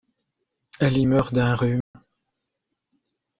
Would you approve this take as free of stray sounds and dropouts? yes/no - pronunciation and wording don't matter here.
no